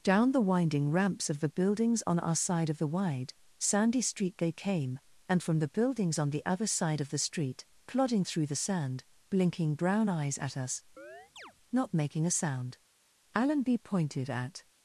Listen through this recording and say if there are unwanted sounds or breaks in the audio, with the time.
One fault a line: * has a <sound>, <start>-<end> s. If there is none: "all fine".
* has a chirp, 11.0-11.5 s